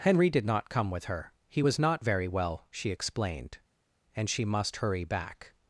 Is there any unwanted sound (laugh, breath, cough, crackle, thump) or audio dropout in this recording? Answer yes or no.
no